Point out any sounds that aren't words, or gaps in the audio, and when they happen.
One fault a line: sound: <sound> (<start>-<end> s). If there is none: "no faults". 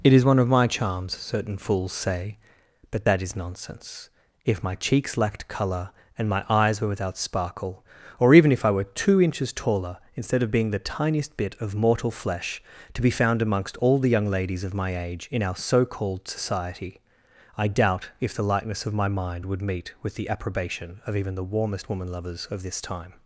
no faults